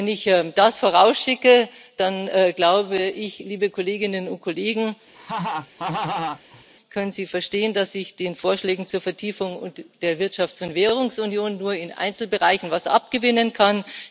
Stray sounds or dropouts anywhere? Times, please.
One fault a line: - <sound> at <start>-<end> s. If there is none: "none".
- laugh at 5.1-6.6 s